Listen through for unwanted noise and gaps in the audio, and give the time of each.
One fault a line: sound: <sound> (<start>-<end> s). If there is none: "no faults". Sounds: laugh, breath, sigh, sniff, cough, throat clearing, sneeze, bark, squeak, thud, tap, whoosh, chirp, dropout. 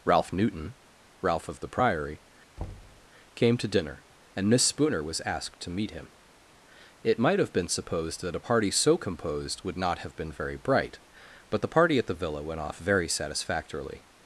sound: thud (2.6-3.1 s)